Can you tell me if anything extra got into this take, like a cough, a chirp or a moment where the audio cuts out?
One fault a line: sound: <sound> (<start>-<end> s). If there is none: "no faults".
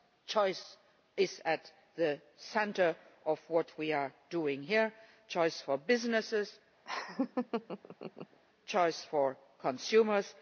sound: laugh (6.8-8.4 s)